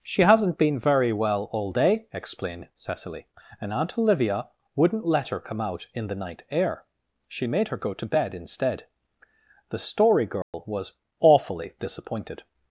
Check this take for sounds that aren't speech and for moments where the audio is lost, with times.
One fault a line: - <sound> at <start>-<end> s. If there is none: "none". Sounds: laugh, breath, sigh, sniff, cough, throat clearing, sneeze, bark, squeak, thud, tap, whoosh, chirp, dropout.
- dropout at 10.4-10.5 s